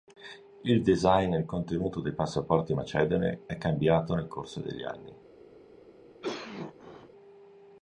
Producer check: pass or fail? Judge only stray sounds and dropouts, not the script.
fail